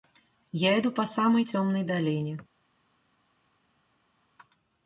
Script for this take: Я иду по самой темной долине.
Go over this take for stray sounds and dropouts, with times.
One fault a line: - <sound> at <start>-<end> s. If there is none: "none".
none